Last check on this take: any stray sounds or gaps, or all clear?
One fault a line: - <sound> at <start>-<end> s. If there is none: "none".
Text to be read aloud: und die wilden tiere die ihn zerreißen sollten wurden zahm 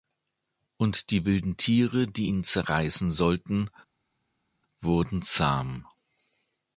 none